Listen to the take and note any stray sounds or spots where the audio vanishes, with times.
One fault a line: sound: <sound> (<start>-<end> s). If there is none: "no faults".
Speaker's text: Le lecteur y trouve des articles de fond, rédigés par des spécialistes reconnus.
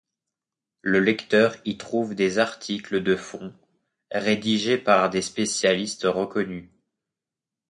no faults